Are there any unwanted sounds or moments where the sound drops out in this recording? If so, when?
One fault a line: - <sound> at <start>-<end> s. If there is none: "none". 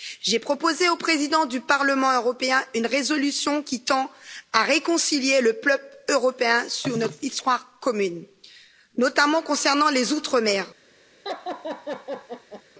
- laugh at 11.2-12.6 s